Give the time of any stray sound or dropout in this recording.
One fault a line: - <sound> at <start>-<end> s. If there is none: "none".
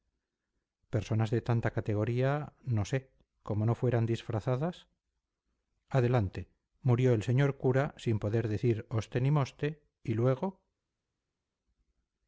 none